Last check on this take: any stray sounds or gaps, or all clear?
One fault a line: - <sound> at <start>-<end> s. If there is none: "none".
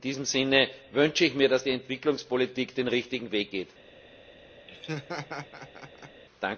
- laugh at 4.7-6.2 s